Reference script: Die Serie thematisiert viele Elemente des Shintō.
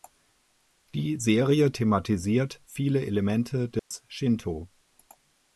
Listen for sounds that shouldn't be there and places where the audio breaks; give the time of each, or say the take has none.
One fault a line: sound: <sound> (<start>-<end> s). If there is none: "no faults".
sound: dropout (3.8-3.9 s)